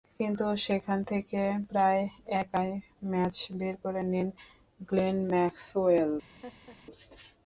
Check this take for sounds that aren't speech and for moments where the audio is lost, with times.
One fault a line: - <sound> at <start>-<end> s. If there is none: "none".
- laugh at 6.4-6.8 s